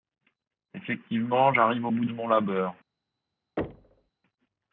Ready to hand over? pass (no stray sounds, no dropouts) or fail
fail